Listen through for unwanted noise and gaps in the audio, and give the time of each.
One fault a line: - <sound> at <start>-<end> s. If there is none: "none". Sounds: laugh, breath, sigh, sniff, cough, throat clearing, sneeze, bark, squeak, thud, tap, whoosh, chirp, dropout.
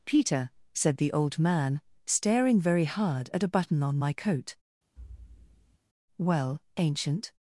- thud at 5.0-5.8 s